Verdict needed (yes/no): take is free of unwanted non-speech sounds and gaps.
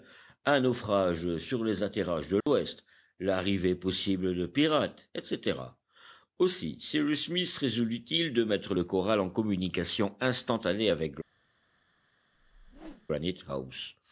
no